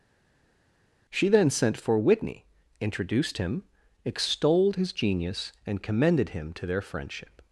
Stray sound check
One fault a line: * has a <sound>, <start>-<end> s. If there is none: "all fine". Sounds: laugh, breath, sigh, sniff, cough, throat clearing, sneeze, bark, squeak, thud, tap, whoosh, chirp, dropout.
all fine